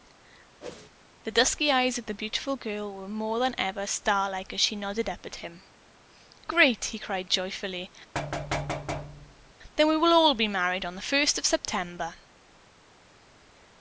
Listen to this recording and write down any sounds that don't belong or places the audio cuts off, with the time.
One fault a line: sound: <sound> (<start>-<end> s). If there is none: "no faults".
sound: whoosh (0.6-0.9 s)
sound: thud (8.1-9.5 s)